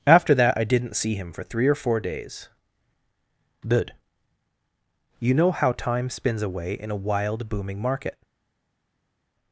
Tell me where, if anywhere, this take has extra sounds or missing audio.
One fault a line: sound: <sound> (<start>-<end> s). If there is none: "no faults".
no faults